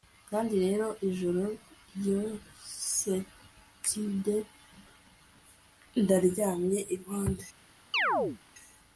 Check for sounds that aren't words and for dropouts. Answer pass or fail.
fail